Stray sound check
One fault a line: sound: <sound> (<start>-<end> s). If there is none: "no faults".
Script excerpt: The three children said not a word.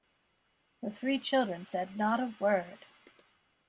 no faults